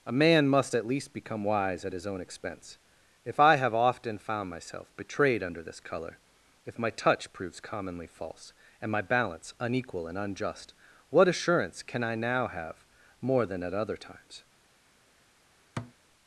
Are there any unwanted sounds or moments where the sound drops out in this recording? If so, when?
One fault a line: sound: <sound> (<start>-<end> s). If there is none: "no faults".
sound: thud (15.8-15.9 s)